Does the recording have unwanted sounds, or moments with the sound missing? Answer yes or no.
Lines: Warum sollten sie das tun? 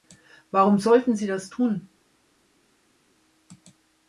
no